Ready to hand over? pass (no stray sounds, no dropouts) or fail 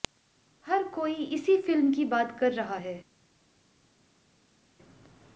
pass